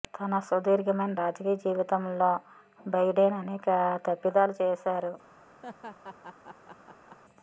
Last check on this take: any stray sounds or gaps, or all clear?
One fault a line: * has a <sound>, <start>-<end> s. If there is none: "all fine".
* has a laugh, 5.6-7.2 s